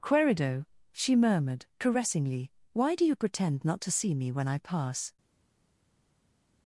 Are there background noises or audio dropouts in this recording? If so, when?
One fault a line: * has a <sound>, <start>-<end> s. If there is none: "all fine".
all fine